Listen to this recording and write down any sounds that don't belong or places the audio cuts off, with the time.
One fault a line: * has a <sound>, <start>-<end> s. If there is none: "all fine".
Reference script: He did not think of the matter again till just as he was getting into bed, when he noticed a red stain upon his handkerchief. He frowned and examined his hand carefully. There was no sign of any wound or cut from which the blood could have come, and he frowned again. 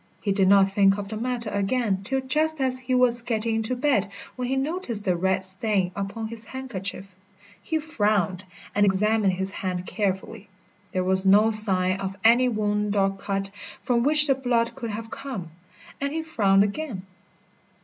all fine